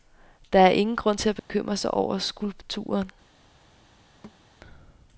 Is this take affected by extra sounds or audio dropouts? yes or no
yes